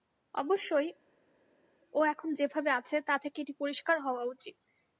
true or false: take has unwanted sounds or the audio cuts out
false